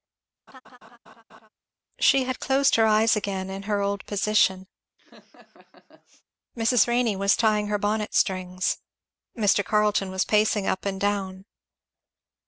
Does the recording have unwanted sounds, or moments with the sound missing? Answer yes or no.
yes